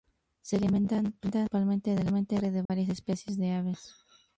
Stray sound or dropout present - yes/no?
yes